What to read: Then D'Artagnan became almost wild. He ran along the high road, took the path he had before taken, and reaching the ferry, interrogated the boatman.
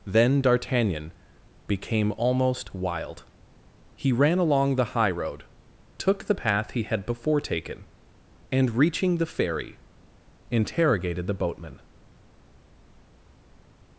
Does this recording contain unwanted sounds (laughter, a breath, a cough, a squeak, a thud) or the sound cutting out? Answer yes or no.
no